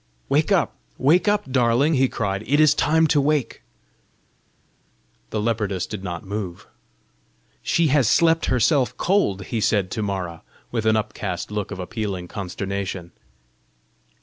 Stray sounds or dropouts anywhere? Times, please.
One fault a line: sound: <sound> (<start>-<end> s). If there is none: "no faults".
no faults